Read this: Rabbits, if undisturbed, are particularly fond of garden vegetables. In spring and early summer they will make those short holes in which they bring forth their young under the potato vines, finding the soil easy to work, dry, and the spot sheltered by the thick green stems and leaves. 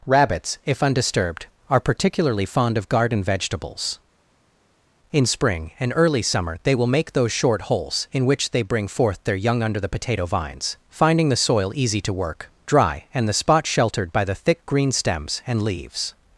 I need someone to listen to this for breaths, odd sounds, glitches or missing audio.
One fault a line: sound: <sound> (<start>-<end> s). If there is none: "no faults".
no faults